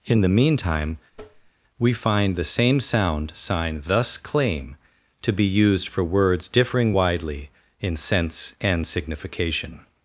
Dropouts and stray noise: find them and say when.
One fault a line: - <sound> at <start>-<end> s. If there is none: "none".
- tap at 1.1-1.5 s